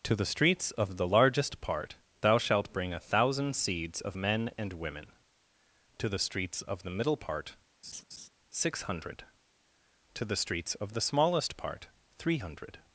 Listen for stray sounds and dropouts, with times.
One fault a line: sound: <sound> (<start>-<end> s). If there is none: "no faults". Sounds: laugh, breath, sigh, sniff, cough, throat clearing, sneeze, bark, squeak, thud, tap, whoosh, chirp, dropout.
sound: laugh (7.8-8.3 s)